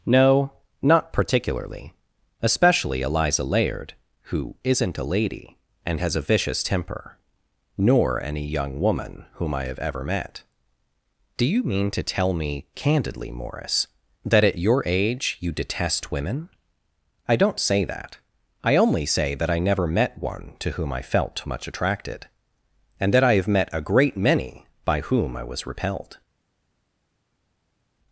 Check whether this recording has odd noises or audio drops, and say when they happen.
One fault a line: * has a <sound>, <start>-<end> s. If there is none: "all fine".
all fine